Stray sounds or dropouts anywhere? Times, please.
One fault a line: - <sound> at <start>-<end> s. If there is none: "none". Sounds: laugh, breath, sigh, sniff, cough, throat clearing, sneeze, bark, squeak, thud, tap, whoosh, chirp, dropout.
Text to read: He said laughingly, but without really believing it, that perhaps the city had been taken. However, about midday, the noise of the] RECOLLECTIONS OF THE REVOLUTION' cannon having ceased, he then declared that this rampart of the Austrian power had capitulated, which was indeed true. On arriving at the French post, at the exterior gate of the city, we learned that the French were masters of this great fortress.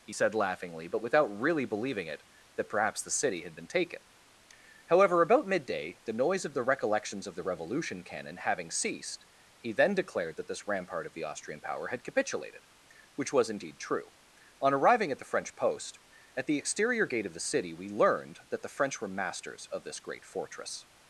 none